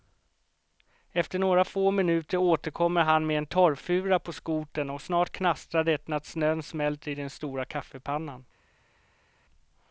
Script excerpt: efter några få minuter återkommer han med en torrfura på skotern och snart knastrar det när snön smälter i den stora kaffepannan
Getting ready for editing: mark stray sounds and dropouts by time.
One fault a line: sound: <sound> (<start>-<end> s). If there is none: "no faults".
no faults